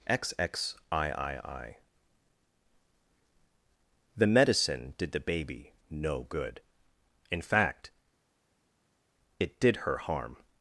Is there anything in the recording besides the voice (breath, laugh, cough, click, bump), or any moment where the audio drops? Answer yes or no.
no